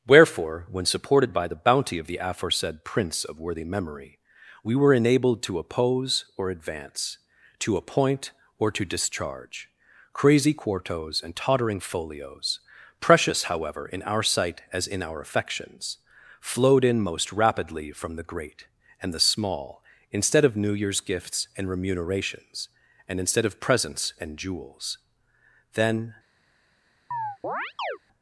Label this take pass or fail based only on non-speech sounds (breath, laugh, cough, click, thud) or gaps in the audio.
fail